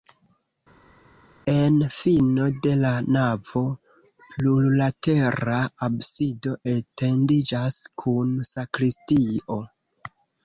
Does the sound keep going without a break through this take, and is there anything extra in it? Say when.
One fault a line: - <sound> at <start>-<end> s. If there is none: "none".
none